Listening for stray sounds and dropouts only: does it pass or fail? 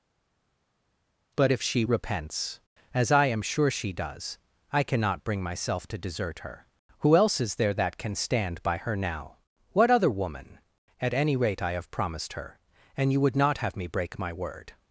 pass